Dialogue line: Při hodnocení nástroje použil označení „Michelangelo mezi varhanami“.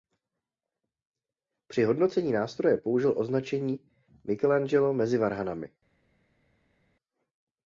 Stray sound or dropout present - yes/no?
no